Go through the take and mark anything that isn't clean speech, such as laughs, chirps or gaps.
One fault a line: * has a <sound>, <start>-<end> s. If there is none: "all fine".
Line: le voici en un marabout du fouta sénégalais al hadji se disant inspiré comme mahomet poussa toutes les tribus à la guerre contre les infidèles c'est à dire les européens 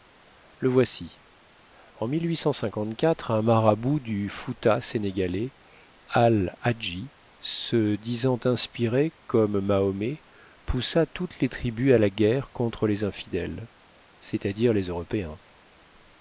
all fine